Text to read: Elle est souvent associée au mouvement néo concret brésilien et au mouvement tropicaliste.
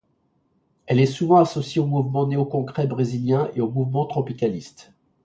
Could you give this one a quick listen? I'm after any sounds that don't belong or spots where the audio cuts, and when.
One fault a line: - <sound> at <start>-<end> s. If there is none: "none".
none